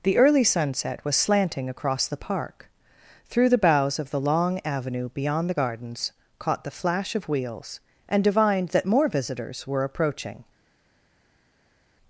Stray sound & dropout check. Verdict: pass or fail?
pass